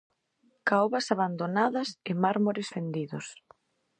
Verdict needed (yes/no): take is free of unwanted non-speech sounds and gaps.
yes